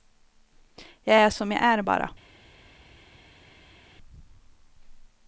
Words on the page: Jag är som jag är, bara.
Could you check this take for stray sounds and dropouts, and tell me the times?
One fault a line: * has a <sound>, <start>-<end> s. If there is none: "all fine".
all fine